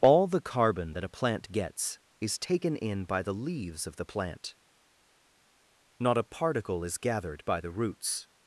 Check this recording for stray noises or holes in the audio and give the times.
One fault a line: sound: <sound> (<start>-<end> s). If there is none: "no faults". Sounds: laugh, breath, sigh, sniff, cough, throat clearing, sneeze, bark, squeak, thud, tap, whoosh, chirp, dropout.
no faults